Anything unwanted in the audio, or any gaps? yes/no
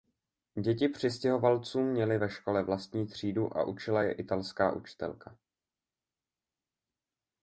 no